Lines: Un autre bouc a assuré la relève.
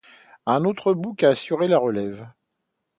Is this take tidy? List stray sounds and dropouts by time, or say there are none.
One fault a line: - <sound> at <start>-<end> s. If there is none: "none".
none